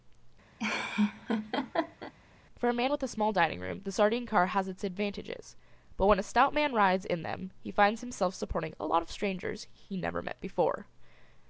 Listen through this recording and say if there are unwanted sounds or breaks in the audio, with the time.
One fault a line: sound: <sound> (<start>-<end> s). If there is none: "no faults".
sound: laugh (0.6-2.1 s)